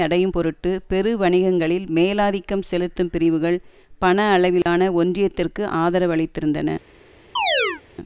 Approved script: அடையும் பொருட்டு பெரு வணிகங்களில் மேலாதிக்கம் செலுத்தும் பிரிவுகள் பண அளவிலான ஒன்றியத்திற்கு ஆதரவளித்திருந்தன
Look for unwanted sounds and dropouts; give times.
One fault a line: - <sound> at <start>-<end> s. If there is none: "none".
- dropout at 4.6-4.7 s
- chirp at 7.4-7.8 s